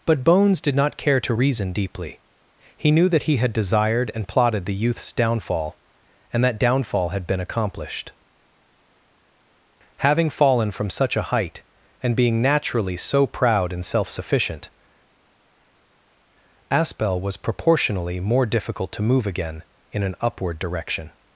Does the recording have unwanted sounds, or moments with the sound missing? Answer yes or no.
no